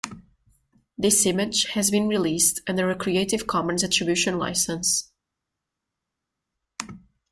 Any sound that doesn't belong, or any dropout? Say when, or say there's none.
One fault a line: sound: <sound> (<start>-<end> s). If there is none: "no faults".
no faults